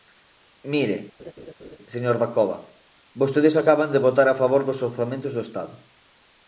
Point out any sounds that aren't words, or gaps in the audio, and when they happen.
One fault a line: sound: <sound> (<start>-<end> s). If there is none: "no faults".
sound: laugh (1.2-1.8 s)